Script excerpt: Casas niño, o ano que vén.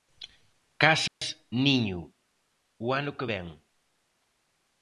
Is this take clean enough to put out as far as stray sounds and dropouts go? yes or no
no